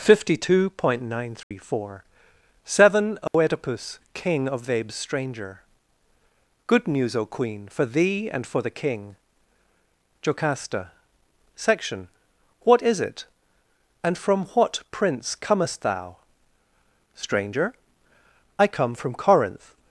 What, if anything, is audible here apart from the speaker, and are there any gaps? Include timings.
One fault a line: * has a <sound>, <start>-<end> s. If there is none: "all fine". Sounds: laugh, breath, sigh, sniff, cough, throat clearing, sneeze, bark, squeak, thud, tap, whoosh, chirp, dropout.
* has a dropout, 1.4-1.5 s
* has a dropout, 3.3-3.3 s